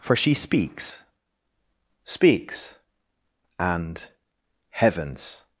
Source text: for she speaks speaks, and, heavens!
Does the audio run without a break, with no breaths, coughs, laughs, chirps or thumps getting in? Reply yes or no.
yes